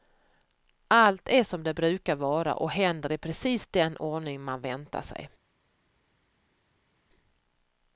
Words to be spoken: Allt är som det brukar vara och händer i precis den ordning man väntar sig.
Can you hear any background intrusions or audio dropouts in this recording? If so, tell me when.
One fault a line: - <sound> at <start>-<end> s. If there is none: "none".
none